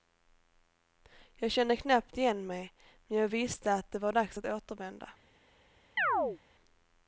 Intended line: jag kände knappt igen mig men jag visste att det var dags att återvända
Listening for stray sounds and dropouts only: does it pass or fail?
fail